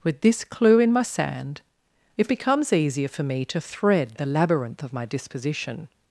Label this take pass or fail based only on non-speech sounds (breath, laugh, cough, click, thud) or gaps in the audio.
pass